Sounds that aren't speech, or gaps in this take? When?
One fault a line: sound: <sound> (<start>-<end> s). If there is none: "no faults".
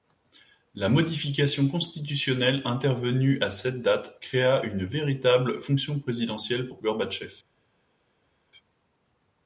no faults